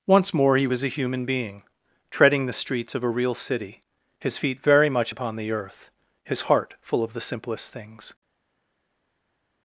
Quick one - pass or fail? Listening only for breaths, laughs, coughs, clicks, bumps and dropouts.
pass